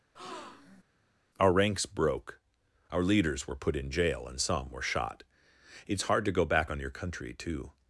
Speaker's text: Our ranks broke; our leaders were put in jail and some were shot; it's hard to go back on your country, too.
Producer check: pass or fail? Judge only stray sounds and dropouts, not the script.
fail